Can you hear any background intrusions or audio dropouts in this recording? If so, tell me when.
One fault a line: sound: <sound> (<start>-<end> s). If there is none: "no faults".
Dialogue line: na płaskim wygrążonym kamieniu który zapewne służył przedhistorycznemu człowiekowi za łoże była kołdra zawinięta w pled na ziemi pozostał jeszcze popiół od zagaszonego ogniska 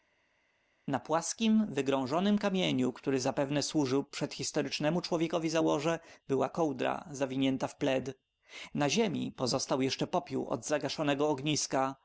no faults